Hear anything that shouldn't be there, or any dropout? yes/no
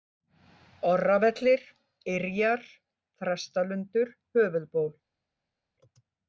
no